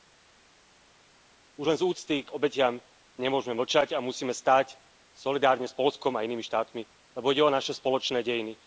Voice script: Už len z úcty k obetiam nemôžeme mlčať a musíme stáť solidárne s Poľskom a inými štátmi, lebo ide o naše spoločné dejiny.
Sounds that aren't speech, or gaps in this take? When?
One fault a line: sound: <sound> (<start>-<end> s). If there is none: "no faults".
no faults